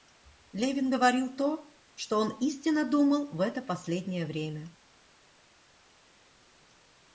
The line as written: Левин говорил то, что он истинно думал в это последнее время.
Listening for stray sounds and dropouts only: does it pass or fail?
pass